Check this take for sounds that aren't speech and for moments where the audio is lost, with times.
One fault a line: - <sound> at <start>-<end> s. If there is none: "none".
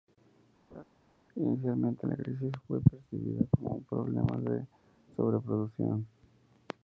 - laugh at 0.7-0.8 s